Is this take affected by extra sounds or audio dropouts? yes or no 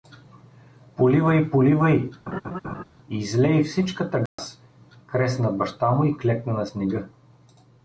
yes